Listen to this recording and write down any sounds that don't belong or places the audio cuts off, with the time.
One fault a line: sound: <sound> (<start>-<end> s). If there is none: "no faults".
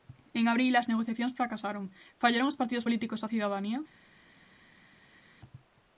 no faults